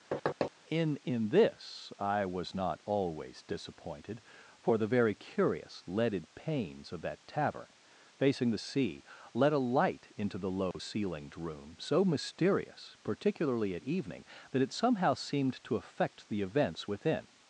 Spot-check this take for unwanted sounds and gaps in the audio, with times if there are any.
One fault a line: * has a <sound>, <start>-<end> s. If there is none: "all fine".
* has a thud, 0.1-0.5 s
* has a dropout, 10.7-10.7 s